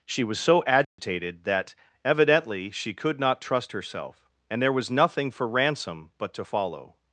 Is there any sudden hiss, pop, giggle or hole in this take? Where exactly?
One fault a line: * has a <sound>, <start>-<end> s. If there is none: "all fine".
* has a dropout, 0.8-1.0 s